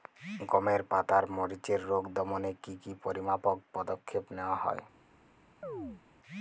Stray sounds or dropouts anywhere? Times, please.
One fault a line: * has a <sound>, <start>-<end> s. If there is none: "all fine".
* has a chirp, 5.6-6.0 s